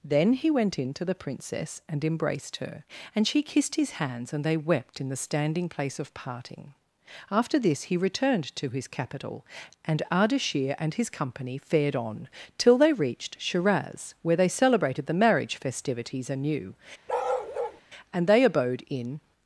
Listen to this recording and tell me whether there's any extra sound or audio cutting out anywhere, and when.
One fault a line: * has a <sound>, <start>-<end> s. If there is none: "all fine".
* has a bark, 17.1-17.8 s